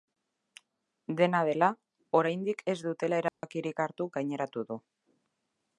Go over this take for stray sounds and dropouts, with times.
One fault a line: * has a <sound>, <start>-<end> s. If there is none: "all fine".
* has a dropout, 3.3-3.4 s